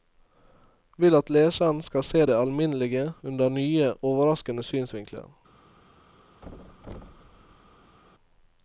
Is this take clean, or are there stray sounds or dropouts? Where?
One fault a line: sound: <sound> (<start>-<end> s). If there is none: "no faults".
sound: thud (6.4-8.0 s)